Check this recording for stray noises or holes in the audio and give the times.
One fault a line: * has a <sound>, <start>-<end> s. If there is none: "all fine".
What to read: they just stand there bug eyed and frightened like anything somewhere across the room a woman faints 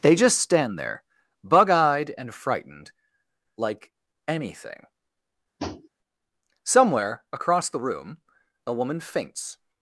* has a tap, 5.6-5.9 s